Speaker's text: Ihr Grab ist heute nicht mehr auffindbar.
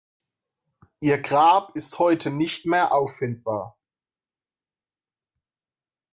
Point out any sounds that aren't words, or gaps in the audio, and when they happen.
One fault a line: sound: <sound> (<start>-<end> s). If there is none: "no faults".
no faults